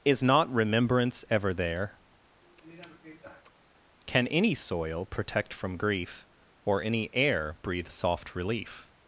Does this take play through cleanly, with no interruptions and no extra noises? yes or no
no